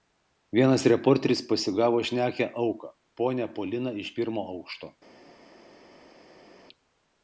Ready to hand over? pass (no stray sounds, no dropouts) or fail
pass